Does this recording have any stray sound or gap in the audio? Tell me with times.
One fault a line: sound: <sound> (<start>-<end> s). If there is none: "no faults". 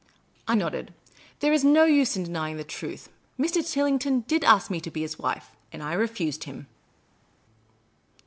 no faults